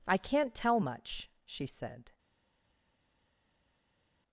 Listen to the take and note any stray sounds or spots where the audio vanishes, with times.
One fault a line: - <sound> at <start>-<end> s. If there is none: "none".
none